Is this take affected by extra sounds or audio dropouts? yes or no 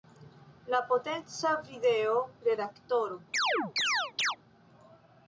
yes